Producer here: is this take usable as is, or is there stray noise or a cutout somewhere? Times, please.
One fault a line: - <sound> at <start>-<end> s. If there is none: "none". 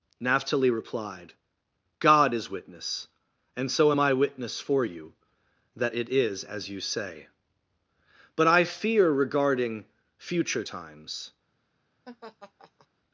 - laugh at 12.1-12.9 s